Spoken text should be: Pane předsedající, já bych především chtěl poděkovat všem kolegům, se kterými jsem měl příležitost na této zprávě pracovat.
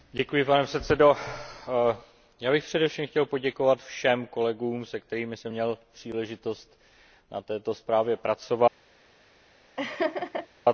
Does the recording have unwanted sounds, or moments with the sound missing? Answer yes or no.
yes